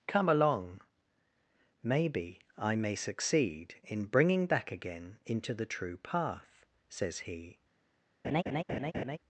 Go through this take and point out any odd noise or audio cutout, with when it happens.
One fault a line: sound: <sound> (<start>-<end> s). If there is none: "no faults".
sound: laugh (8.2-9.2 s)